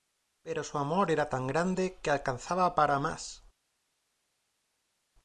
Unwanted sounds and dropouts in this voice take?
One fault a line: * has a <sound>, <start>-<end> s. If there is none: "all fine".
all fine